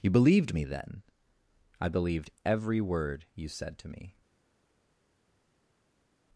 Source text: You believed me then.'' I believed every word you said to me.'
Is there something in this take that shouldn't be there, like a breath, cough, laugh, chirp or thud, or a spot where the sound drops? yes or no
no